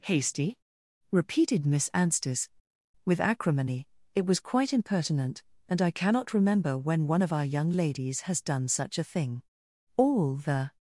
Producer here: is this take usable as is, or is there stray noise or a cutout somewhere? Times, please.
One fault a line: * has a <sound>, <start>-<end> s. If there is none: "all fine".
all fine